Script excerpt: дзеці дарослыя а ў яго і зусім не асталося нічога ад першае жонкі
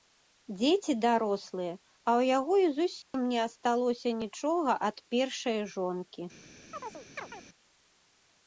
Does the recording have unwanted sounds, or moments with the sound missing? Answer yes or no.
yes